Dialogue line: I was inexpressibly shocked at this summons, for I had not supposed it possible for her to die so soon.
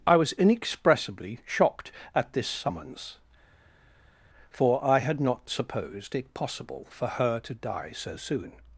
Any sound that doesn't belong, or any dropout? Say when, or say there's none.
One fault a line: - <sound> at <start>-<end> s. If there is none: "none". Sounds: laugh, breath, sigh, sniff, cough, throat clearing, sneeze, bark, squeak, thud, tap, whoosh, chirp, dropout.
none